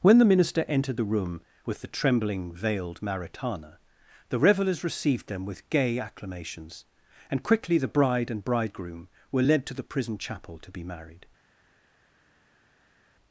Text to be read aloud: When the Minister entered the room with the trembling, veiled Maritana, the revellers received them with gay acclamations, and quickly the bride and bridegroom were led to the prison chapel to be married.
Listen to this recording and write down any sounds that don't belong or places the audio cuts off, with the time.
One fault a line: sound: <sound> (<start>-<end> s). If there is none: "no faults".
no faults